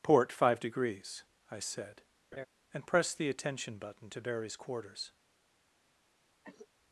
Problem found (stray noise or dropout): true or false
true